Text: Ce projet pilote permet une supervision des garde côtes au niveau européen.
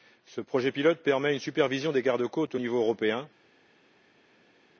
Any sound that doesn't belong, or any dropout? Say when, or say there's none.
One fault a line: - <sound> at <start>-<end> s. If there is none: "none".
none